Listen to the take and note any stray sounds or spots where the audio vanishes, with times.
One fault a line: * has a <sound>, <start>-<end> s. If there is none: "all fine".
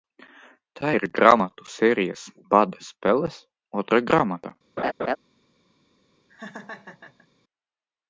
* has a laugh, 4.8-5.2 s
* has a laugh, 6.3-7.3 s